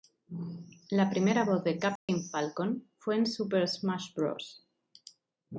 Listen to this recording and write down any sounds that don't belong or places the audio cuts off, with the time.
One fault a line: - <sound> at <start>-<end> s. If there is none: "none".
- dropout at 2.0-2.1 s